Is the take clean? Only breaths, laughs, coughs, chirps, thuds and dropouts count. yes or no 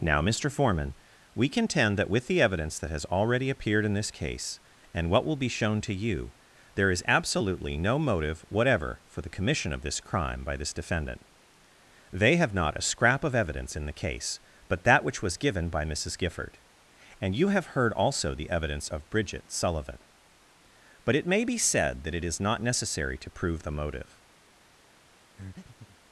no